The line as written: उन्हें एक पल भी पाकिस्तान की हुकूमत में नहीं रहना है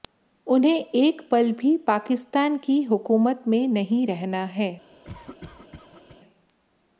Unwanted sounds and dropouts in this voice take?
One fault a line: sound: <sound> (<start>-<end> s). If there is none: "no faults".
sound: cough (5.0-6.2 s)